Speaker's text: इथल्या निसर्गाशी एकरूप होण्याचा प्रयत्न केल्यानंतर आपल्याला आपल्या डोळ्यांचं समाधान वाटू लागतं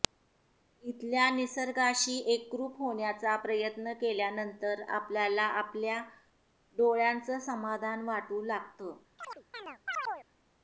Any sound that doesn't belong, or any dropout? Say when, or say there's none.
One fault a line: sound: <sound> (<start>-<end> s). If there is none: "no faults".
sound: chirp (9.2-10.3 s)